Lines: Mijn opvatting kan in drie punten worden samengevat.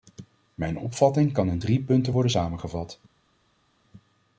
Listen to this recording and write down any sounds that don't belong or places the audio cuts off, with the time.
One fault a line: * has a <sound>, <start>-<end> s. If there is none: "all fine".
all fine